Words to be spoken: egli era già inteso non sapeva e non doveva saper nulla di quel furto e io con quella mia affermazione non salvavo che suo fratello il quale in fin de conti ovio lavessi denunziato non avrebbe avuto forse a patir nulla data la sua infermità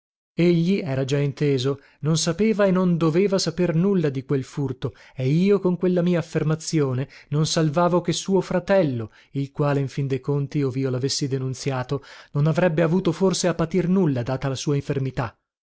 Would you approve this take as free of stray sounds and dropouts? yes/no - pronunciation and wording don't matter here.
yes